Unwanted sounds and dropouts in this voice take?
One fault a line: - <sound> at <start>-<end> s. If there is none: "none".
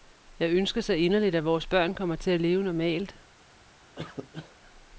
- cough at 4.0-4.6 s